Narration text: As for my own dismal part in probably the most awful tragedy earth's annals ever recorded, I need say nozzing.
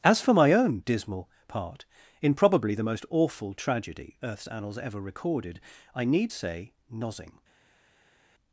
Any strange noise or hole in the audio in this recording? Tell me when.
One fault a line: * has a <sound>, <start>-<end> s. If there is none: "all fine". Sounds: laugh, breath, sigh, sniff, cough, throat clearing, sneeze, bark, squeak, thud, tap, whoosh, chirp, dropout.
all fine